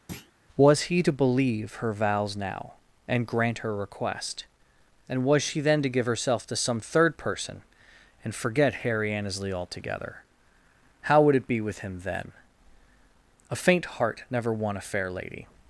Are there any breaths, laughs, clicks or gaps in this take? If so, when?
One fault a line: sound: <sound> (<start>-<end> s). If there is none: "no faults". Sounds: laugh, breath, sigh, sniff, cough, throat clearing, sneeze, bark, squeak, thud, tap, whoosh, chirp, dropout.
sound: thud (0.1-0.3 s)